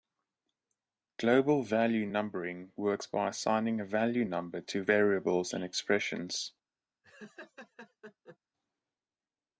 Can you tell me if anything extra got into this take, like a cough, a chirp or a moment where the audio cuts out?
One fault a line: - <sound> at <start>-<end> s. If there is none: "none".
- laugh at 7.0-8.4 s